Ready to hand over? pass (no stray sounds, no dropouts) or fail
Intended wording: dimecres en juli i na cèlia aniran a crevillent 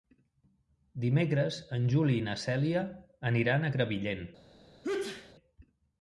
fail